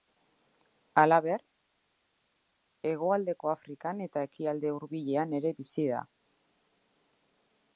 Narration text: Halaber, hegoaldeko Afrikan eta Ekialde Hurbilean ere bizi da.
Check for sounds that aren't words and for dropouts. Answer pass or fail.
pass